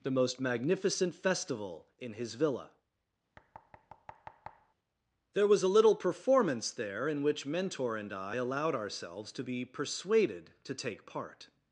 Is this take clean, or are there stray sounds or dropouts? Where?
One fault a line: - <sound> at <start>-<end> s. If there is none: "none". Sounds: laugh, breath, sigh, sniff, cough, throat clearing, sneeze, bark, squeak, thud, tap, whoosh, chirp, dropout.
- thud at 3.4-4.7 s